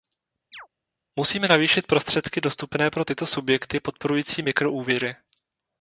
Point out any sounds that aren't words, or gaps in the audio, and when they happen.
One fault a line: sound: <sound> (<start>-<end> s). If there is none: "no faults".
sound: chirp (0.5-0.7 s)